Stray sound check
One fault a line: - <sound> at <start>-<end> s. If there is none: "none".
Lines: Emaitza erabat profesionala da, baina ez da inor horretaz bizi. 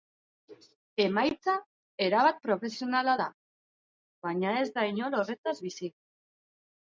none